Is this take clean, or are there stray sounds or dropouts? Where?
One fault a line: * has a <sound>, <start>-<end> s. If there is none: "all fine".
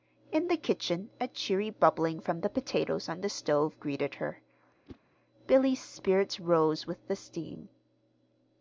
* has a whoosh, 4.9-5.0 s